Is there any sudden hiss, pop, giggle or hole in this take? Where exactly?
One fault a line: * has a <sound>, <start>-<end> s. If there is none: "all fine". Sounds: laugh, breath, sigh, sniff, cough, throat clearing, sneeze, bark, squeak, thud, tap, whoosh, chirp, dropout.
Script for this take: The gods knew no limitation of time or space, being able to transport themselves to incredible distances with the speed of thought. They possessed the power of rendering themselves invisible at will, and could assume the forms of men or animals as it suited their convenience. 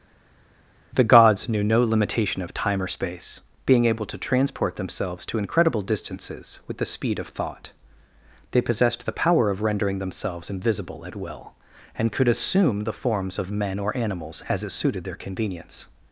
all fine